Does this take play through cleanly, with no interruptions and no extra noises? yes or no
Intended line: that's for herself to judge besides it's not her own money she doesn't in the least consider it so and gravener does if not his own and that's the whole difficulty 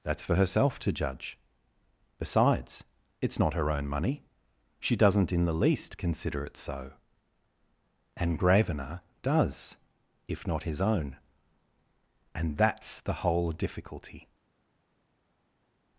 yes